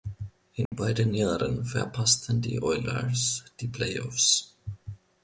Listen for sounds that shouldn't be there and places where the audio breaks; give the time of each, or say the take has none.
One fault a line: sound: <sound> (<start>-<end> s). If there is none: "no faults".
sound: dropout (0.7-0.7 s)